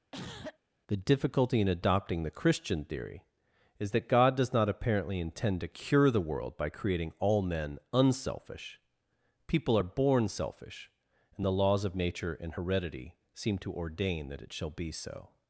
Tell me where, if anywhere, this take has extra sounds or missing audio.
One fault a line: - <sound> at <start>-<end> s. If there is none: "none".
- cough at 0.1-0.6 s